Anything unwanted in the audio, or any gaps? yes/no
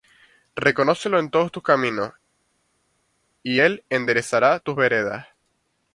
no